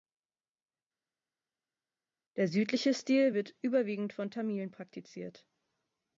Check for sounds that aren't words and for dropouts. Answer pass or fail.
pass